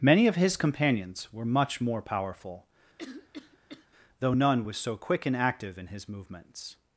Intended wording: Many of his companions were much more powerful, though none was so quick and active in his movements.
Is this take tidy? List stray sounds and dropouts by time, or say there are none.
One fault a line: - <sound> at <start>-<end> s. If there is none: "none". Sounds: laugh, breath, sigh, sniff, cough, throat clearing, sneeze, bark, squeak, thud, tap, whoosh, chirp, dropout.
- cough at 3.0-3.9 s